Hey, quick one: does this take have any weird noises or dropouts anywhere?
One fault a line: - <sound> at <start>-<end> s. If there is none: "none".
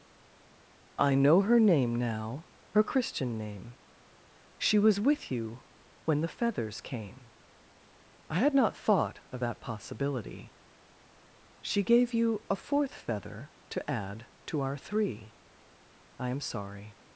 none